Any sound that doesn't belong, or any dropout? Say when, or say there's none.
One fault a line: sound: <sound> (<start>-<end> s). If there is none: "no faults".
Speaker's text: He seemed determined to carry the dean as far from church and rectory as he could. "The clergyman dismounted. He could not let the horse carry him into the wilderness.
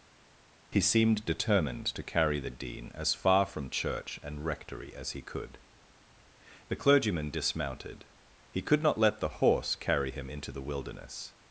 no faults